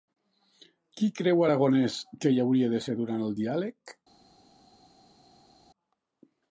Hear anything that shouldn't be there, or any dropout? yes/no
no